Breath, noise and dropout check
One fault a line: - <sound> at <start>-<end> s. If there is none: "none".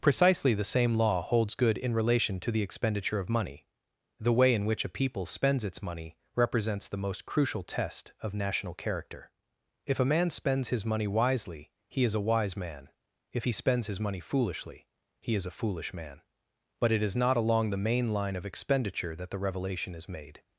none